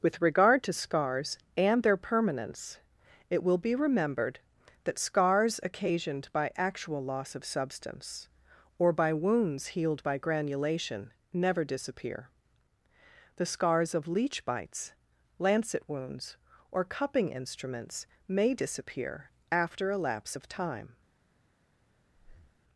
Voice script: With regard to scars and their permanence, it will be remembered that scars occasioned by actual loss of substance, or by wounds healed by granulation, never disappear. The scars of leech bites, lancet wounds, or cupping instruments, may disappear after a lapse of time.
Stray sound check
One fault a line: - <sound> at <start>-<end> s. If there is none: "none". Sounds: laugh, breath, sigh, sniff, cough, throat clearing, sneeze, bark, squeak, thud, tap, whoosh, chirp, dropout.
- breath at 22.1-22.6 s